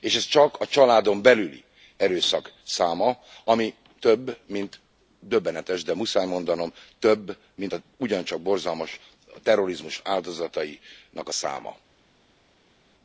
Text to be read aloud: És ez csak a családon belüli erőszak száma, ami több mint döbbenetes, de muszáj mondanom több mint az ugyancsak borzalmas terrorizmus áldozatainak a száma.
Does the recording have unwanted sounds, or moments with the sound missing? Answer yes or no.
no